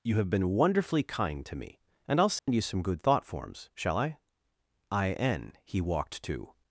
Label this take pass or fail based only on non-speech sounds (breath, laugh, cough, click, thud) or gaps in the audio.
fail